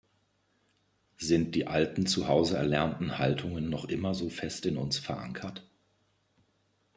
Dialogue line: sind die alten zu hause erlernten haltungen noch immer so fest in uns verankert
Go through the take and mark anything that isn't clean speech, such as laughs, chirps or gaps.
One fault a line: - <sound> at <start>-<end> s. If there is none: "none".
none